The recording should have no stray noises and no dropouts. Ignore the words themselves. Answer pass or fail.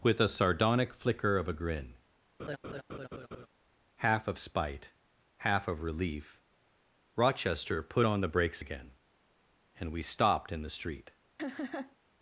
fail